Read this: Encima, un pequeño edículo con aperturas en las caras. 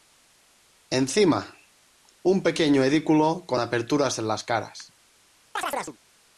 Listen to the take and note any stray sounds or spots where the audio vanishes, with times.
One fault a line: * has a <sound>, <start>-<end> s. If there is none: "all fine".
* has a chirp, 5.6-6.0 s